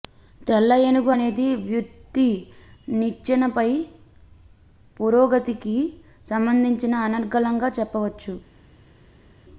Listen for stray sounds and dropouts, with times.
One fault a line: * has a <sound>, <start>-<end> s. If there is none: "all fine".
all fine